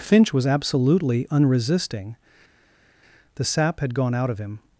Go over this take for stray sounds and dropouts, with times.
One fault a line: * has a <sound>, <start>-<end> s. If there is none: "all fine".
all fine